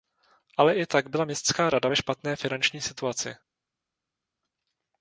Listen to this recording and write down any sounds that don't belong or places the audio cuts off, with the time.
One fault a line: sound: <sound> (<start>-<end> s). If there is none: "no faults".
no faults